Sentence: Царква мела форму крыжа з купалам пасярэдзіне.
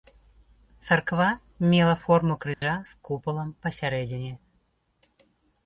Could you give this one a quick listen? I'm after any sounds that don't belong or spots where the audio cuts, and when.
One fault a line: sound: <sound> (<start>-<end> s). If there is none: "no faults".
sound: dropout (2.5-2.6 s)